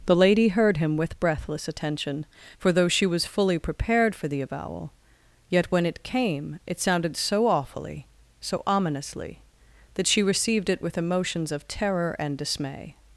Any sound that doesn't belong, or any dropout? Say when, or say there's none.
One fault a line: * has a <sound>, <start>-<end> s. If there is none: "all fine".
all fine